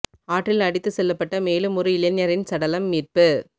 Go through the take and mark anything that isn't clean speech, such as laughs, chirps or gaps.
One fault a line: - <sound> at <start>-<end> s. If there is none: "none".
none